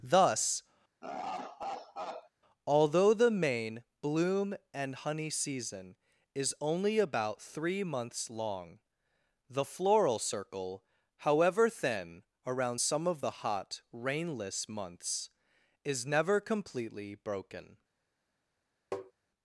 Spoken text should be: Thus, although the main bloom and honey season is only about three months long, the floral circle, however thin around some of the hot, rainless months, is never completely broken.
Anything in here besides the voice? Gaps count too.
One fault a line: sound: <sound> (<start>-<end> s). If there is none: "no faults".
sound: laugh (1.0-2.3 s)
sound: tap (18.9-19.1 s)